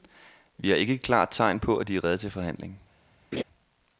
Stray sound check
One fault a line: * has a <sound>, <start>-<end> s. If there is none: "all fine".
* has a laugh, 3.3-3.4 s